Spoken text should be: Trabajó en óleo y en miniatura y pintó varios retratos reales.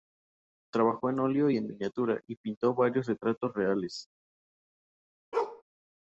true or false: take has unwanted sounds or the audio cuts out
true